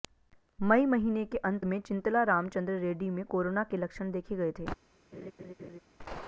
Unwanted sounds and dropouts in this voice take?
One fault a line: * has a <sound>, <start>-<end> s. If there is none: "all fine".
* has a laugh, 5.1-5.8 s